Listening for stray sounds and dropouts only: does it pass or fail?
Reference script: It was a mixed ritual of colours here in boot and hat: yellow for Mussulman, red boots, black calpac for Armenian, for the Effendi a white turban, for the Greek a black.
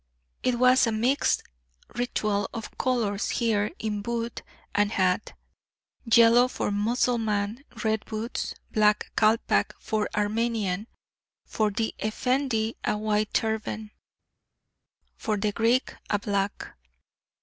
pass